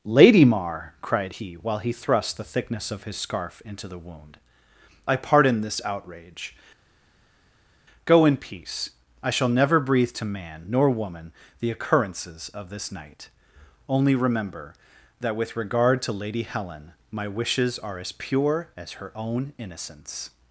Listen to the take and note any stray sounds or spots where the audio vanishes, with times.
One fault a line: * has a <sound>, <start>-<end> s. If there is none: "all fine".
all fine